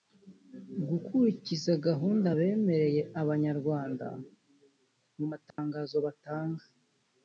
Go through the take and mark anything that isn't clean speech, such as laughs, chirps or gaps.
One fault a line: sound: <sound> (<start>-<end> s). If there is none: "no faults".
sound: dropout (5.5-5.6 s)